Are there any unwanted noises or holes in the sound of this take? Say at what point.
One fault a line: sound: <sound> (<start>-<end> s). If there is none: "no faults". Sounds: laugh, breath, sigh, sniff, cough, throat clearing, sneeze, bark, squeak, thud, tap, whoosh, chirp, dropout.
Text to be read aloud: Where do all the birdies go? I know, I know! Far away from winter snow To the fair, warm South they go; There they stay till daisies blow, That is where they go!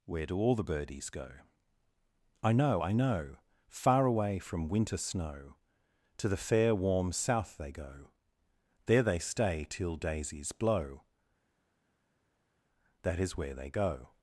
no faults